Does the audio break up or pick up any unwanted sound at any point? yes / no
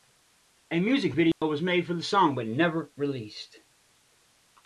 yes